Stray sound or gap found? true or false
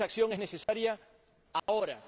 true